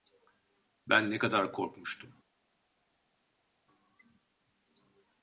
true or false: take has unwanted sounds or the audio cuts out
false